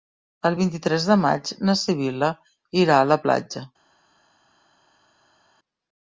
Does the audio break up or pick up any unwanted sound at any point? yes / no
no